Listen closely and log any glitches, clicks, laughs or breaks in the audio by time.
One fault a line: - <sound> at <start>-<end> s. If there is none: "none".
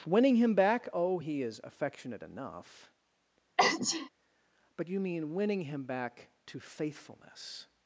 - sneeze at 3.6-4.1 s